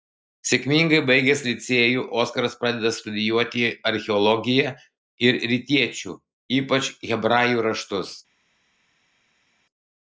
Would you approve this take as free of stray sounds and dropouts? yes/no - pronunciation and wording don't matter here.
yes